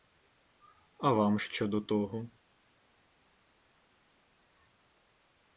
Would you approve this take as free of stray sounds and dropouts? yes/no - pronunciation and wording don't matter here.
yes